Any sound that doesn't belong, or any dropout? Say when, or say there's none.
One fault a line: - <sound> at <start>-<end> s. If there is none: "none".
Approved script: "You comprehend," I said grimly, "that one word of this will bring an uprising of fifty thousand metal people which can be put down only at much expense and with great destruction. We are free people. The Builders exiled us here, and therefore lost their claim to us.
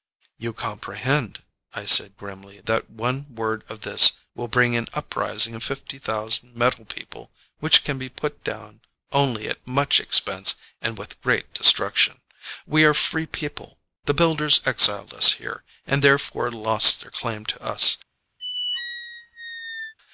- squeak at 18.4-19.9 s